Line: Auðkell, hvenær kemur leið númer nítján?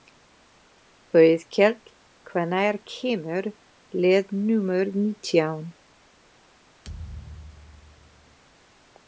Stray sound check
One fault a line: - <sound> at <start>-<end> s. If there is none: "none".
- thud at 6.8-8.4 s